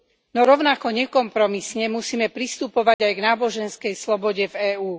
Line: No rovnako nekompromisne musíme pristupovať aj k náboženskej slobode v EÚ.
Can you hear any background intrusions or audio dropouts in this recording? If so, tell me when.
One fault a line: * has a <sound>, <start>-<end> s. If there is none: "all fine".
* has a dropout, 2.9-3.0 s